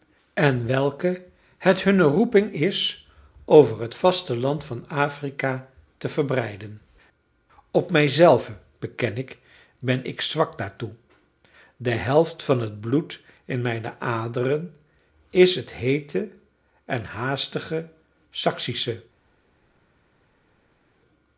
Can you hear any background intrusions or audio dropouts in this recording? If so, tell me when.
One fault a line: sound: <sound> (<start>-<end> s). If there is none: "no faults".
no faults